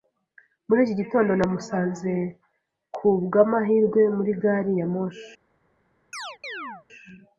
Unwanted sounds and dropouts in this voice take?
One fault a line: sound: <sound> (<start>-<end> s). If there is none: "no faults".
sound: chirp (6.1-6.9 s)